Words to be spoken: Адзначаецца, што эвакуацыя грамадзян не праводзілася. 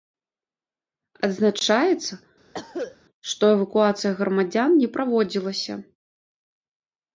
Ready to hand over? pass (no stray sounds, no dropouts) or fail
fail